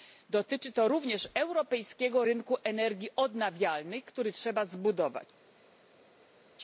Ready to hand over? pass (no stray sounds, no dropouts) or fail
pass